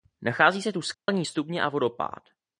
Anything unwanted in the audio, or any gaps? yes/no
yes